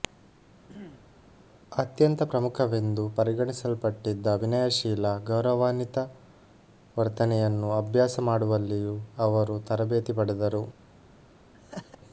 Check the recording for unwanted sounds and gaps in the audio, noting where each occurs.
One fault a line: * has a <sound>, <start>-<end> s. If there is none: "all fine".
* has a throat clearing, 0.7-1.1 s
* has a laugh, 11.5-12.0 s